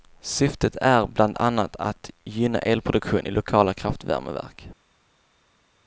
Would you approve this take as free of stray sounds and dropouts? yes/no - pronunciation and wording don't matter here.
yes